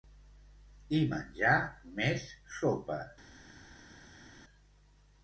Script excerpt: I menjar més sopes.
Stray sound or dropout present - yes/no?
no